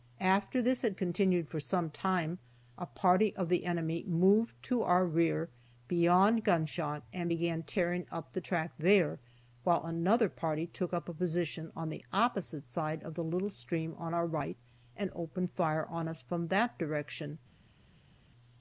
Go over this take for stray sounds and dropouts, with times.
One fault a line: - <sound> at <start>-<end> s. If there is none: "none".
none